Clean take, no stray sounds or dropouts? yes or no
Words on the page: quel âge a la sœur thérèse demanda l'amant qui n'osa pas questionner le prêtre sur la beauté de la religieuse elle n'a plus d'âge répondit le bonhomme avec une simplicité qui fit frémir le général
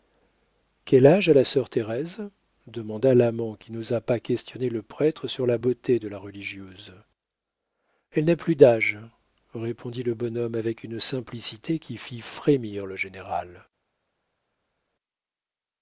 yes